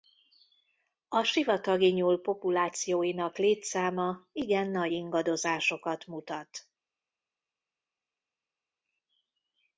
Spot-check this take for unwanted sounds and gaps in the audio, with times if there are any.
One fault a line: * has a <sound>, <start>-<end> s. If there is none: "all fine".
all fine